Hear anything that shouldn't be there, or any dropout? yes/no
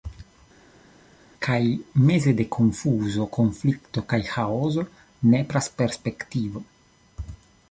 no